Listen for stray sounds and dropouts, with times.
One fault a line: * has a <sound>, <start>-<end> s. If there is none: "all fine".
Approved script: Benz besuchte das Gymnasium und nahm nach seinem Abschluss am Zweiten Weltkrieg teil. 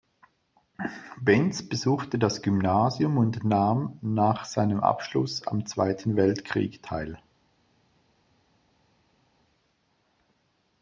all fine